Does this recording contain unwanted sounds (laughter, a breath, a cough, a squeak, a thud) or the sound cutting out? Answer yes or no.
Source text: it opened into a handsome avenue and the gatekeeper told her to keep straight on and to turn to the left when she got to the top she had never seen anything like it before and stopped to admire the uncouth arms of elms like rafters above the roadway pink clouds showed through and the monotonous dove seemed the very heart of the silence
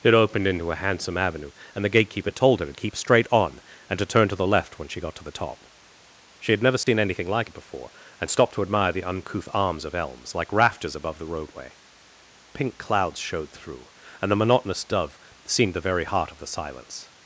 yes